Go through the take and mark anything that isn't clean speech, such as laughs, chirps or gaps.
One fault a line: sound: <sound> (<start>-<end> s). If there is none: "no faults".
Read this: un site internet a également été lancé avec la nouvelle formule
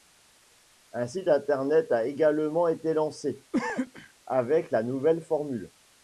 sound: cough (3.5-4.1 s)